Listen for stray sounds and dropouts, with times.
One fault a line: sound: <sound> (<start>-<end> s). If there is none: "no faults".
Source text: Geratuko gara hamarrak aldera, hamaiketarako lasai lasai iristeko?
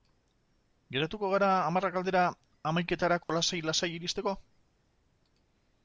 sound: dropout (3.2-3.3 s)